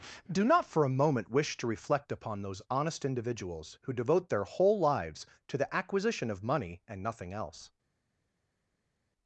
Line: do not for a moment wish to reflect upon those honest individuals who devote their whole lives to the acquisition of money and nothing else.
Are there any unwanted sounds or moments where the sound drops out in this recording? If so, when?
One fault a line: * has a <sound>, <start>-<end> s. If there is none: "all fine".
all fine